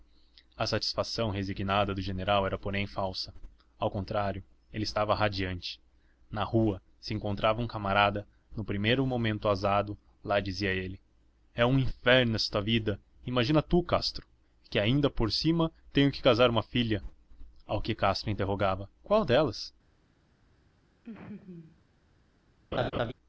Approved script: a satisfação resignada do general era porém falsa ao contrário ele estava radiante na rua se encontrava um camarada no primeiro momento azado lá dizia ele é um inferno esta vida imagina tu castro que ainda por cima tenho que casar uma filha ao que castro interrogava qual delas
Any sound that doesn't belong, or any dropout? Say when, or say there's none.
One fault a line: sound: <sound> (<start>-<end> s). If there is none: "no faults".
sound: laugh (21.0-21.8 s)
sound: laugh (22.7-23.1 s)